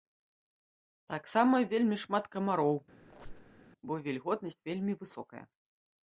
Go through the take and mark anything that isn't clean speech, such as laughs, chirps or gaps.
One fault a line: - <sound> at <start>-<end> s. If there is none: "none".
- squeak at 3.0-3.6 s